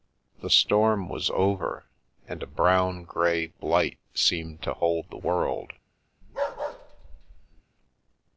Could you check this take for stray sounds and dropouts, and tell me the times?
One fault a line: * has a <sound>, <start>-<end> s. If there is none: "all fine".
* has a bark, 6.2-7.6 s